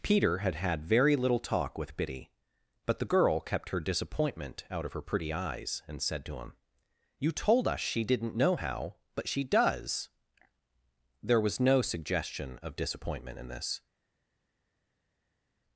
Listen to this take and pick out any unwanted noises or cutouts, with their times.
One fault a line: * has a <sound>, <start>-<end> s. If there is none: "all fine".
all fine